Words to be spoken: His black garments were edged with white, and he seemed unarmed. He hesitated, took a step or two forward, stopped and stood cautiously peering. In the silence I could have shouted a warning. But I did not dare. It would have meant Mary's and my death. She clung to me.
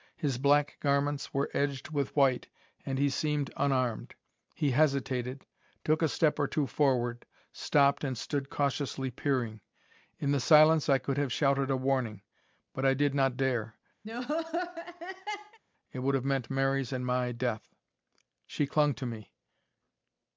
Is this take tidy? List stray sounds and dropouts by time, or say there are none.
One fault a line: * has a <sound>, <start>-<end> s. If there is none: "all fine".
* has a laugh, 14.0-15.6 s